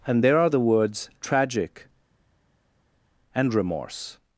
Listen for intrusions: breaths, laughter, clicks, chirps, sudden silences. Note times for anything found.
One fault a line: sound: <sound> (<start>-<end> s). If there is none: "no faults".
no faults